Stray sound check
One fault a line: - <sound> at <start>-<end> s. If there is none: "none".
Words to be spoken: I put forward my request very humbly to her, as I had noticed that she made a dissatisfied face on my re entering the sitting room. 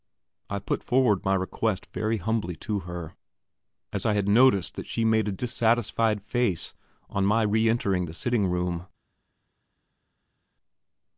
none